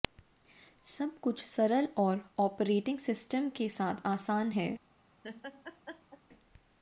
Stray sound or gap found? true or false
true